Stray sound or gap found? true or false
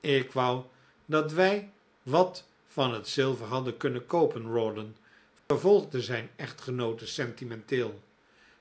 true